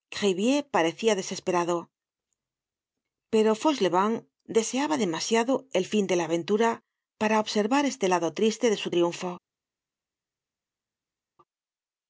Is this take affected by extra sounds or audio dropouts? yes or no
no